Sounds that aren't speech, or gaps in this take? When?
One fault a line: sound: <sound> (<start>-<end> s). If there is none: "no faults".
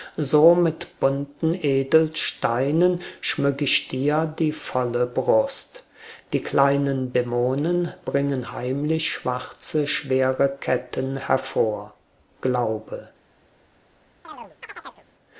sound: chirp (14.2-15.1 s)